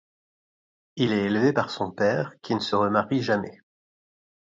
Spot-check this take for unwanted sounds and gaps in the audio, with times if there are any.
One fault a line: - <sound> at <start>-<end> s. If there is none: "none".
none